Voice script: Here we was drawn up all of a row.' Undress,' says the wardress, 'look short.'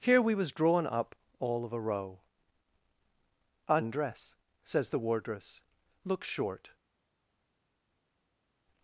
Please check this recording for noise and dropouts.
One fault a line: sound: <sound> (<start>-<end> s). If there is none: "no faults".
no faults